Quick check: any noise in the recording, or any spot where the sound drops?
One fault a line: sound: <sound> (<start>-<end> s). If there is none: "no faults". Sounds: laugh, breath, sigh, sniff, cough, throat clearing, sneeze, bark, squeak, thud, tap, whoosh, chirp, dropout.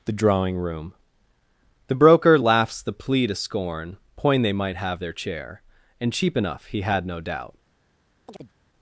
sound: chirp (8.3-8.5 s)